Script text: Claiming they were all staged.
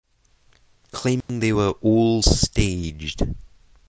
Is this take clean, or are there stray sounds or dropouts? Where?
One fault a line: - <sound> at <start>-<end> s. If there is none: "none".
- dropout at 1.2-1.3 s